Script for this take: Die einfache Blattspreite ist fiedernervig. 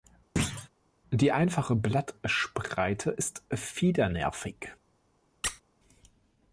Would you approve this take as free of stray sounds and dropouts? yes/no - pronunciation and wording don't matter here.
no